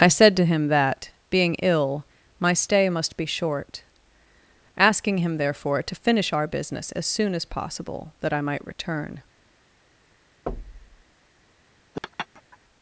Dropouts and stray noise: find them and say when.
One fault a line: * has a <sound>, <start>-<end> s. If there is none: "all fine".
* has a thud, 10.5-11.0 s
* has a laugh, 11.9-12.6 s